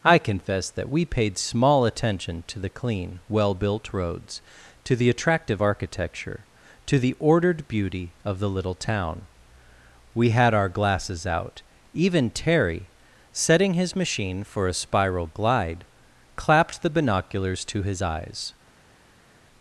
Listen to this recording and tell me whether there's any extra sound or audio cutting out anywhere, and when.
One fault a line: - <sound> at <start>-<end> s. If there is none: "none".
none